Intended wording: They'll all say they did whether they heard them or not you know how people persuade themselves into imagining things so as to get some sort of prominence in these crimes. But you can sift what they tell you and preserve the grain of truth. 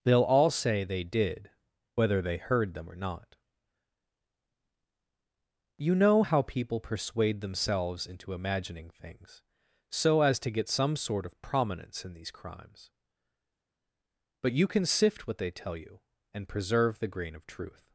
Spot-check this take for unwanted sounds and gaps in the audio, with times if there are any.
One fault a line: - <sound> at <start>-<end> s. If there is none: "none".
none